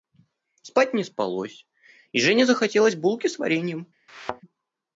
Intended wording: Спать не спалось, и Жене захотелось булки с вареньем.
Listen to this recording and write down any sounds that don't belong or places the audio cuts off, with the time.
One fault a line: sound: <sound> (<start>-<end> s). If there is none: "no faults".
sound: thud (4.1-4.4 s)